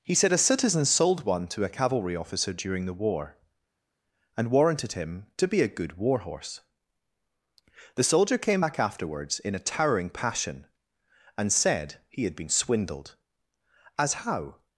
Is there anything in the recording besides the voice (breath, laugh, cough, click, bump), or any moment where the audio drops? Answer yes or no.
no